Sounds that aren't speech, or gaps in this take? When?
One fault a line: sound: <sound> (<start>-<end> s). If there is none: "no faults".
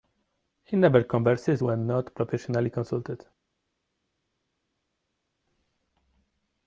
no faults